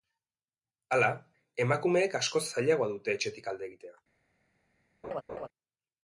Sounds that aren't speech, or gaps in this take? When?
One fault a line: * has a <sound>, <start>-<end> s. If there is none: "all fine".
* has a laugh, 5.0-5.5 s